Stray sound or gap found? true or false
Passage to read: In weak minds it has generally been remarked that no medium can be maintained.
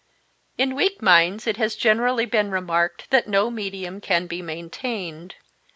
false